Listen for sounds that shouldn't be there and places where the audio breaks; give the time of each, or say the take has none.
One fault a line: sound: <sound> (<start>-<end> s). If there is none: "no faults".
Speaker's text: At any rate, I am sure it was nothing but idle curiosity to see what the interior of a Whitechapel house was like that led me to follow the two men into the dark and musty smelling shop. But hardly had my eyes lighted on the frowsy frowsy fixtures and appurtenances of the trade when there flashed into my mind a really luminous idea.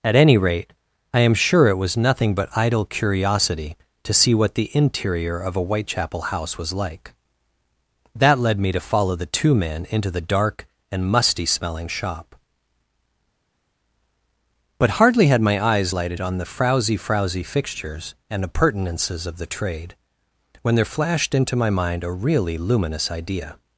no faults